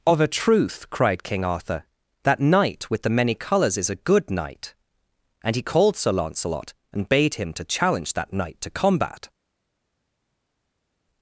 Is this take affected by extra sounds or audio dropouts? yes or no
no